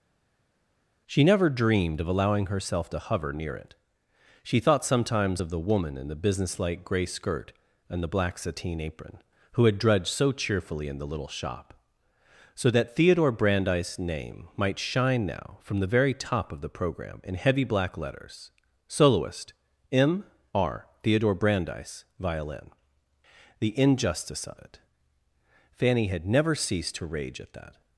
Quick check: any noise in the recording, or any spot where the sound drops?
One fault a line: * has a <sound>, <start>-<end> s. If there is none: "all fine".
all fine